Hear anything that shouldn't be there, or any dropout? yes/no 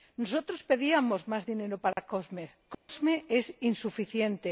yes